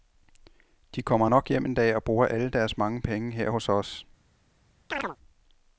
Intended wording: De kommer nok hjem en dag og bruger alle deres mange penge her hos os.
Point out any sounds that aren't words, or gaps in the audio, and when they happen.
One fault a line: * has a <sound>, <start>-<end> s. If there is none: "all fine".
* has a chirp, 4.9-5.2 s